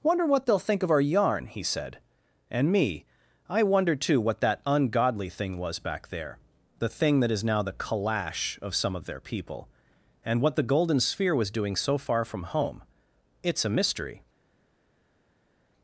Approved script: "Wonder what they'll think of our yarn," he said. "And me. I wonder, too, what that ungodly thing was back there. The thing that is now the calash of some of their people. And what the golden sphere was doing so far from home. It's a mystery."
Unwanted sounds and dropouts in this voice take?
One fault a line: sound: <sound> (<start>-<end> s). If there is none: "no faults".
no faults